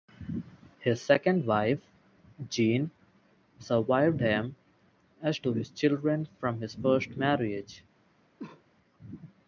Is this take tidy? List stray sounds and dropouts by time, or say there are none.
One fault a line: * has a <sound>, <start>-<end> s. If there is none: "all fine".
* has a cough, 8.4-8.6 s